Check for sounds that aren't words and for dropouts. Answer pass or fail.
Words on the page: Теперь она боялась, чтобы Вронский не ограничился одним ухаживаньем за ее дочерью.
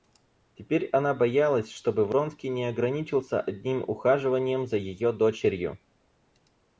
pass